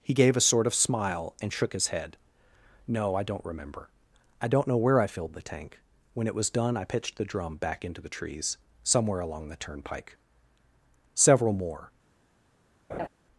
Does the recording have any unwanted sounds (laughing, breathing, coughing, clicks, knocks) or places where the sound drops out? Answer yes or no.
yes